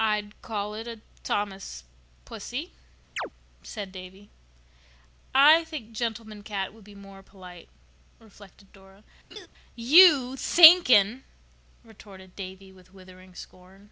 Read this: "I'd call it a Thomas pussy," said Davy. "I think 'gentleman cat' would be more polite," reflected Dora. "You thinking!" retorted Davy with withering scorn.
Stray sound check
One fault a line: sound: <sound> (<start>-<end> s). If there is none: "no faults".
sound: chirp (3.2-3.3 s)
sound: laugh (9.3-9.5 s)